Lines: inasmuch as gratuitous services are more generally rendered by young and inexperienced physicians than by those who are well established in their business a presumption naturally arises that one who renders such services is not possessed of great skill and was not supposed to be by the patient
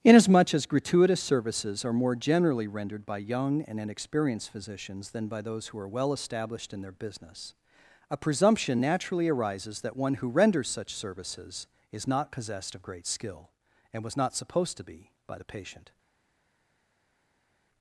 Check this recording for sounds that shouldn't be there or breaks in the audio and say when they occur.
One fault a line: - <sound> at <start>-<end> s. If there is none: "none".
none